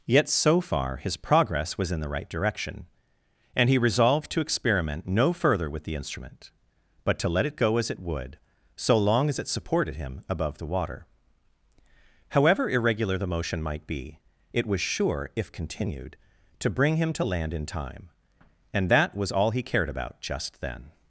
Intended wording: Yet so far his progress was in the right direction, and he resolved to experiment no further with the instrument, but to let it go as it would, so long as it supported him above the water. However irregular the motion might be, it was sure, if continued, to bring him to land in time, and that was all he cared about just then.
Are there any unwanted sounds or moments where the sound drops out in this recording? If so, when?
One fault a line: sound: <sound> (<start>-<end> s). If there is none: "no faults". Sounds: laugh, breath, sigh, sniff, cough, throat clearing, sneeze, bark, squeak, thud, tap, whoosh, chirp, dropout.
no faults